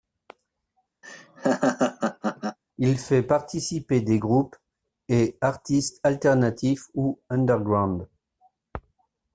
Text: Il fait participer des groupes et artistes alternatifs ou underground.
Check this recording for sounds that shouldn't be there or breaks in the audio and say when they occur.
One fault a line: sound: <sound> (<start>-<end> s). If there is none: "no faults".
sound: laugh (1.0-2.6 s)